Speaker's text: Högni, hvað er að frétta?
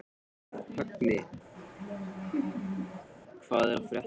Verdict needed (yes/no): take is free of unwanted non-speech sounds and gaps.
no